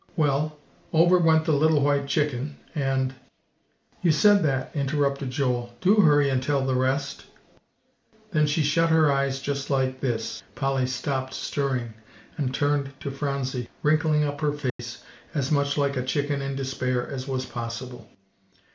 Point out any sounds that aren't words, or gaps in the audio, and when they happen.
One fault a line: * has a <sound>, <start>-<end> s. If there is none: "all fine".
* has a dropout, 14.7-14.8 s